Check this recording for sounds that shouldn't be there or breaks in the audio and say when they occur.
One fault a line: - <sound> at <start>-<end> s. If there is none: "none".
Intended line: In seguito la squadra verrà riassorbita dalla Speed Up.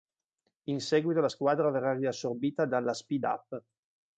none